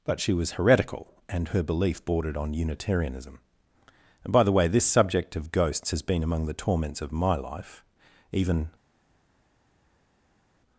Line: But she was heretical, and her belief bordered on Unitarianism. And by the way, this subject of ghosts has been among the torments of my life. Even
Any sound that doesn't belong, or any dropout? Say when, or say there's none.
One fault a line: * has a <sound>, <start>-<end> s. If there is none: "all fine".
all fine